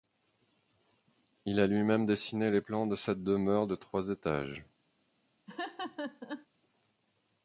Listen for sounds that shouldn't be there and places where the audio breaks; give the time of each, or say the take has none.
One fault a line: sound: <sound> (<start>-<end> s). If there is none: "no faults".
sound: laugh (5.5-6.5 s)